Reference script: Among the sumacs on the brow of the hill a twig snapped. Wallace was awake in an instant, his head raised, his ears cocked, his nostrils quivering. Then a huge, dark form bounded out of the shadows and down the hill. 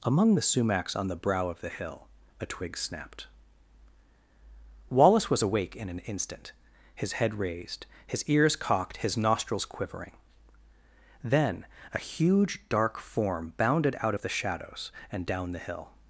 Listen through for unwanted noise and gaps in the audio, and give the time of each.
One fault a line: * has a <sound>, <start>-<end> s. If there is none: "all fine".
all fine